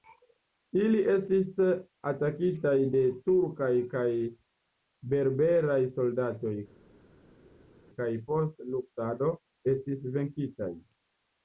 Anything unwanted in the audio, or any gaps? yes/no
no